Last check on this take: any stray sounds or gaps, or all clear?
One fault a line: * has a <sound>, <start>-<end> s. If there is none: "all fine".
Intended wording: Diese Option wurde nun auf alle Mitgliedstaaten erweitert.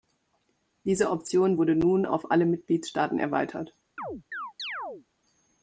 * has a chirp, 4.0-5.1 s